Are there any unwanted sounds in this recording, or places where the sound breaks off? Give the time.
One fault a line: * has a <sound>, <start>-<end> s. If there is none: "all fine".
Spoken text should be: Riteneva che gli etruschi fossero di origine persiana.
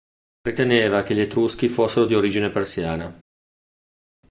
all fine